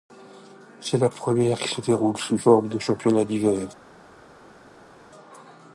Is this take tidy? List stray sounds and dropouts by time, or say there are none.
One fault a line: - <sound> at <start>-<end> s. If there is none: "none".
none